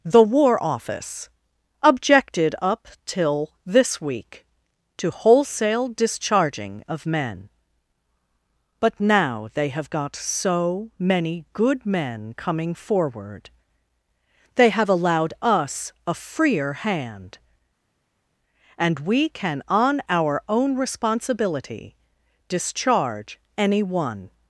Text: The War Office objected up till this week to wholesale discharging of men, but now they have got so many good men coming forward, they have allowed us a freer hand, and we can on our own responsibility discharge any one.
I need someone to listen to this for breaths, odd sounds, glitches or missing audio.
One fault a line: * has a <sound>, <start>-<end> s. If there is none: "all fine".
all fine